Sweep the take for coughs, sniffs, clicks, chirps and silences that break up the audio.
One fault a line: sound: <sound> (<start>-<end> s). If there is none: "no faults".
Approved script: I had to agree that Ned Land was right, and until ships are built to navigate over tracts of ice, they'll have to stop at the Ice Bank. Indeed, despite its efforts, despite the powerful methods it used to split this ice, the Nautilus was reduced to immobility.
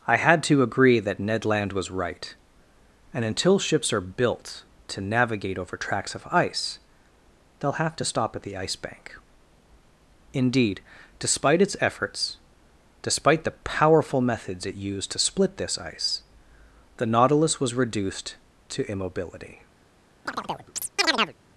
sound: chirp (20.3-21.3 s)